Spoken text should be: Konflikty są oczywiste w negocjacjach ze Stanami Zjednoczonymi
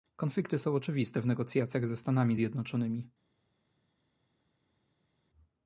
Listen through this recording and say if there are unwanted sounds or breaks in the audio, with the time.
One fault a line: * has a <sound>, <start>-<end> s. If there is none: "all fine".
all fine